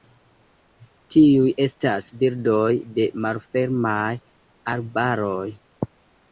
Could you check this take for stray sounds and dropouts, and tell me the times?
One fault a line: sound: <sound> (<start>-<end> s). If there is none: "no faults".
no faults